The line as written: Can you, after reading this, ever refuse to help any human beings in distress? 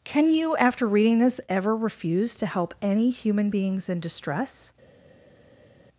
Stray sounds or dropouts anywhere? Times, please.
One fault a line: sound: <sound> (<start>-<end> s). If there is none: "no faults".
no faults